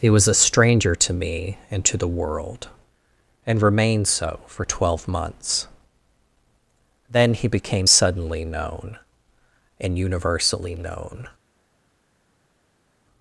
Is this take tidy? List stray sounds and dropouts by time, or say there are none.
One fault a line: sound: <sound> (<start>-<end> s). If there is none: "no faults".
no faults